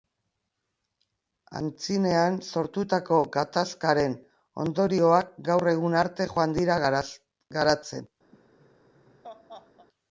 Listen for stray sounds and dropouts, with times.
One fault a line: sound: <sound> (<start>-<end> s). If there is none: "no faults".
sound: laugh (8.3-9.9 s)